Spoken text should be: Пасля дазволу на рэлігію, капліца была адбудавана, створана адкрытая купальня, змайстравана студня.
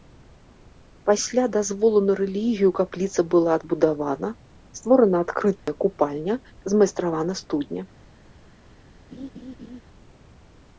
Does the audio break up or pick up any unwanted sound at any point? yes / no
yes